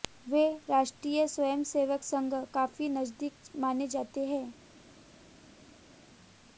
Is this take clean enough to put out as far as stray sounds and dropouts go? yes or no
yes